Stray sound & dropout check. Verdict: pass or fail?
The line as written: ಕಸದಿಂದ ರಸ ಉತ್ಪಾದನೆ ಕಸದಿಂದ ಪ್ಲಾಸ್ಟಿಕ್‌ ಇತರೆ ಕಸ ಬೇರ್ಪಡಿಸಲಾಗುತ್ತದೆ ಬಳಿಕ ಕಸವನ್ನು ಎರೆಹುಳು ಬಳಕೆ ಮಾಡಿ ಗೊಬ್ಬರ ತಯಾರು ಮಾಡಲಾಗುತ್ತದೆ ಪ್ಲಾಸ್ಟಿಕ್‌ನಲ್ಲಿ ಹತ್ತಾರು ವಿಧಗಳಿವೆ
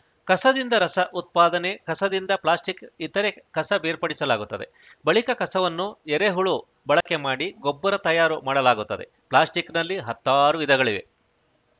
fail